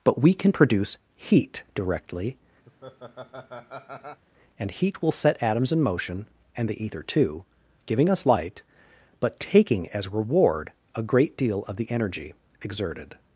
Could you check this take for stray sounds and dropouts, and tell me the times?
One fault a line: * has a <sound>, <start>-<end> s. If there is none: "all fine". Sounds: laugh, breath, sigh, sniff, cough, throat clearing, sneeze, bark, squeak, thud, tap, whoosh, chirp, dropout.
* has a laugh, 2.7-4.2 s